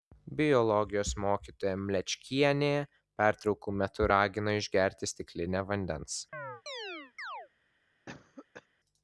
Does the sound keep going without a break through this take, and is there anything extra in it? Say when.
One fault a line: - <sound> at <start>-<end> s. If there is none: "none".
- chirp at 6.3-7.5 s
- cough at 8.1-8.7 s